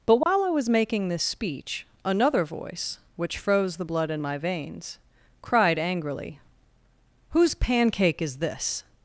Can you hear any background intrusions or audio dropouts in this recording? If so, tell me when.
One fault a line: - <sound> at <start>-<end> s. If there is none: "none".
- dropout at 0.2-0.3 s